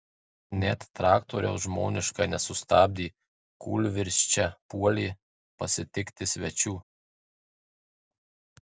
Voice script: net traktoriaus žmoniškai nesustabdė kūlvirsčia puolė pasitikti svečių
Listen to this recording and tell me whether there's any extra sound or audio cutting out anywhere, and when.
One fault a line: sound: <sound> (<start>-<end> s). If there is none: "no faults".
no faults